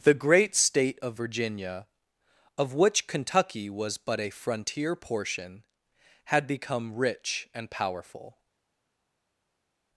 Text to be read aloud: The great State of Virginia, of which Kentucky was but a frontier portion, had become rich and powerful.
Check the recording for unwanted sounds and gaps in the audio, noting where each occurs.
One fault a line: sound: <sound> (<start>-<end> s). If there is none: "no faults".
no faults